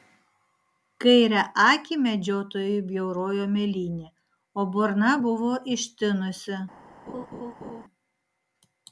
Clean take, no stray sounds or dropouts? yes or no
no